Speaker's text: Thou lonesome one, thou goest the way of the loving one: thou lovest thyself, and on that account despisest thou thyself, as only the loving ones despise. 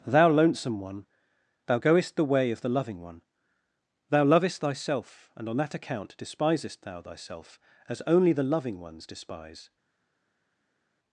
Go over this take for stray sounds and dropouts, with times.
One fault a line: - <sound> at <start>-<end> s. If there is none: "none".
none